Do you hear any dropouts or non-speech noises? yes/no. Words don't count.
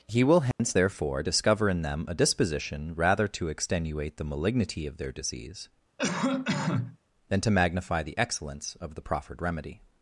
yes